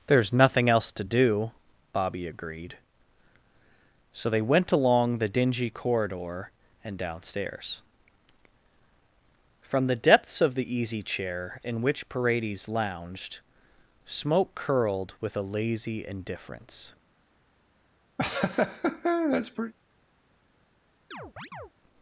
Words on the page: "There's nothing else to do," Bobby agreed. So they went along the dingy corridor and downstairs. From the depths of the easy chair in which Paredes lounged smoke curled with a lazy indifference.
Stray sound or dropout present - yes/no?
yes